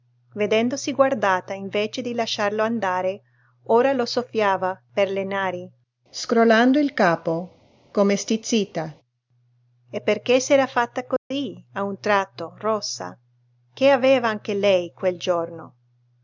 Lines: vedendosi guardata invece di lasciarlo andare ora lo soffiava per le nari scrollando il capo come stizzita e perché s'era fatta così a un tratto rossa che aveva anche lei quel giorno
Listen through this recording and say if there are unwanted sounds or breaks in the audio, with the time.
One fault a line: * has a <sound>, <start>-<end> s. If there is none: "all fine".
* has a dropout, 11.2-11.3 s